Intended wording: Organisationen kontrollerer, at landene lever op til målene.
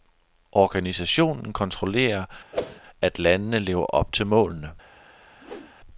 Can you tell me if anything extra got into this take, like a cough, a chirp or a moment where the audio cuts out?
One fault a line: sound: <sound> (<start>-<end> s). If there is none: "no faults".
sound: whoosh (2.5-2.8 s)
sound: whoosh (5.4-5.7 s)